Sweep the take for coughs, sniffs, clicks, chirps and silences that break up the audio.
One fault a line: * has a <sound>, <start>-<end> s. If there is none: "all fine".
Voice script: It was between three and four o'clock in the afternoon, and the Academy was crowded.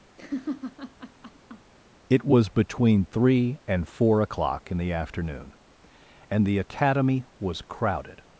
* has a laugh, 0.2-1.7 s